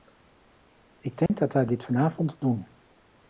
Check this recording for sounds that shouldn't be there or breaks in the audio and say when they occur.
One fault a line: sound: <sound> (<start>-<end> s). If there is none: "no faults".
sound: dropout (1.3-1.3 s)